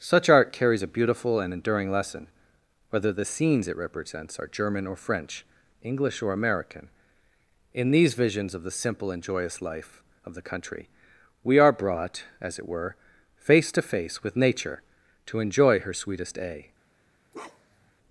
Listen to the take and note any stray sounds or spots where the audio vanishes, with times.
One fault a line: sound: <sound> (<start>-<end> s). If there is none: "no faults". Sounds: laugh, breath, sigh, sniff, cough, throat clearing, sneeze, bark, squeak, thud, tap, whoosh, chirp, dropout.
sound: bark (17.3-17.9 s)